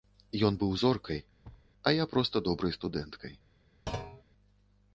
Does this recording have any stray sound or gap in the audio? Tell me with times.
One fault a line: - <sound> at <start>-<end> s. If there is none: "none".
- thud at 1.4-1.7 s
- thud at 3.9-4.2 s